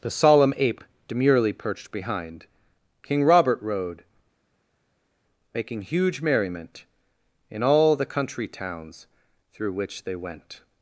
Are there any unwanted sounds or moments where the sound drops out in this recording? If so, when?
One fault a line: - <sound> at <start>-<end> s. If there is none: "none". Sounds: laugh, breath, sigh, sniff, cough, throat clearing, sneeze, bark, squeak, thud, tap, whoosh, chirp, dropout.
none